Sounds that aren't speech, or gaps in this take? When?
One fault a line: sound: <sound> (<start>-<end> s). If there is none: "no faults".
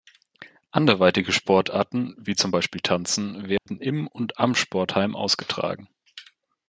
sound: dropout (3.6-3.7 s)